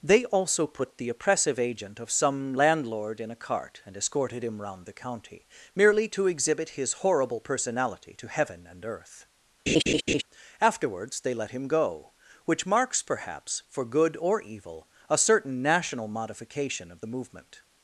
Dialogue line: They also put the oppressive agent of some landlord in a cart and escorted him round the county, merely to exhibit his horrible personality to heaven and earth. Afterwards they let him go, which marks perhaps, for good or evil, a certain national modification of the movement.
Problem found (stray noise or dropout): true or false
true